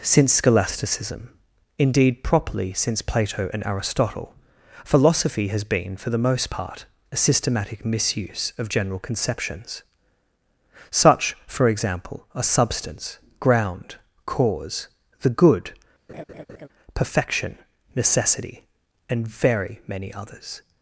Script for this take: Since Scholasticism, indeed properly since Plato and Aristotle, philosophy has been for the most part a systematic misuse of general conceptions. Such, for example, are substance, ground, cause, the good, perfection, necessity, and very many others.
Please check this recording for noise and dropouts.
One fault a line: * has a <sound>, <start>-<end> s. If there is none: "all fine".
* has a laugh, 16.1-16.7 s